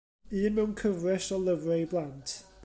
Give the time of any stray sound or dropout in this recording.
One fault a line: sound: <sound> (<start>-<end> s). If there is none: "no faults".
no faults